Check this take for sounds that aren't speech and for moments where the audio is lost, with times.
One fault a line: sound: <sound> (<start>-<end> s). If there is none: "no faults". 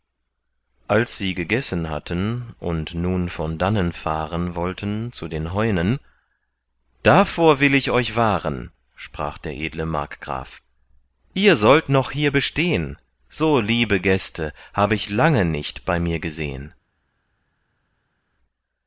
no faults